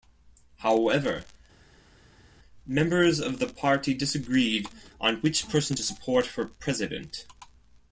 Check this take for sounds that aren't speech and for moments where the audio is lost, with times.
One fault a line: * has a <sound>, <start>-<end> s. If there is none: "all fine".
all fine